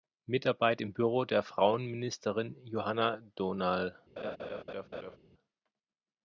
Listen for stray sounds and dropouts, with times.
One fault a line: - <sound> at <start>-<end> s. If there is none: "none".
- laugh at 4.2-5.2 s